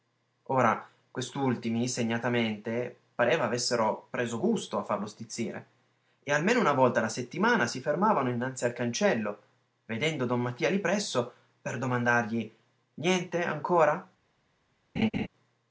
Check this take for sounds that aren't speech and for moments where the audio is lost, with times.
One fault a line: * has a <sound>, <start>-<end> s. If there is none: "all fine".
* has a laugh, 15.0-15.3 s